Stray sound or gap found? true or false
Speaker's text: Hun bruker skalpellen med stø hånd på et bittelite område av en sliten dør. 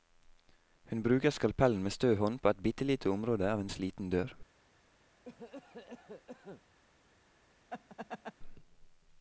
true